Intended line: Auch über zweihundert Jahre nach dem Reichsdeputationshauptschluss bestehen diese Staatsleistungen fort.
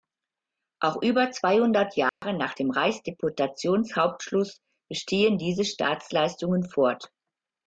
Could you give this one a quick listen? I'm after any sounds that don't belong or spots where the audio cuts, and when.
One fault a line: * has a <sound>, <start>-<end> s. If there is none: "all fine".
* has a dropout, 2.1-2.2 s